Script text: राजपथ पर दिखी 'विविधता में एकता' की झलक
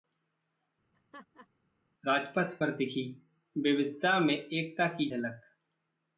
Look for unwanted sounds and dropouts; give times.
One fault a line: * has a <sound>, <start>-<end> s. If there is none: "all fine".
* has a laugh, 0.9-1.5 s